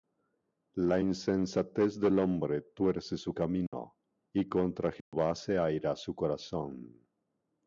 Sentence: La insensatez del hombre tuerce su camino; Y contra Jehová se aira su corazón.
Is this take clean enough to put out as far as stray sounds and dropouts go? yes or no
no